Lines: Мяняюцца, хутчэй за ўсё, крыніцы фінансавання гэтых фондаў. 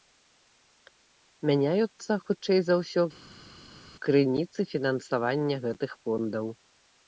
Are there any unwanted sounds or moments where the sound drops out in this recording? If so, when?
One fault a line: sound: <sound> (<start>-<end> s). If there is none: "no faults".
no faults